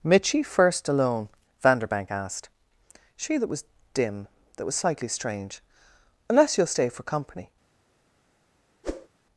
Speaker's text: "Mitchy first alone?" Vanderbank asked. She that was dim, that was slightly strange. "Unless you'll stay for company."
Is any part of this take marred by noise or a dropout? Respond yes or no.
yes